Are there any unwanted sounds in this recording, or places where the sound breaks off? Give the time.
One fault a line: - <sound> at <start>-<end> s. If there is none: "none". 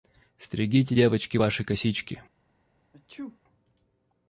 - sneeze at 2.9-3.4 s